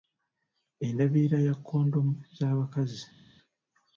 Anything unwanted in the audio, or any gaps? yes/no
no